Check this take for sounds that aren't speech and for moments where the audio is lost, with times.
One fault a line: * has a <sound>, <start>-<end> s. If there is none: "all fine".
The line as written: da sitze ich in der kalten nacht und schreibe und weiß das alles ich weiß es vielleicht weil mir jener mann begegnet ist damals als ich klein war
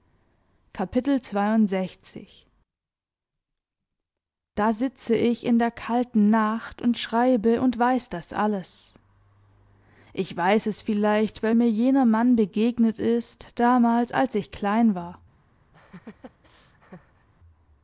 * has a laugh, 15.7-17.3 s